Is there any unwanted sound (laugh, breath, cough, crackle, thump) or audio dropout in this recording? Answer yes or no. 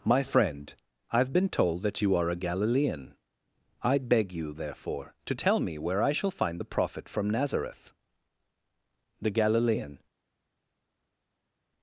no